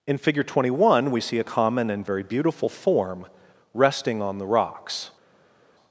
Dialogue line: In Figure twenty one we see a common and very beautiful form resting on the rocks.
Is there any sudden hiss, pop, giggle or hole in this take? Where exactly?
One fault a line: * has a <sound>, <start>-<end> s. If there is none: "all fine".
all fine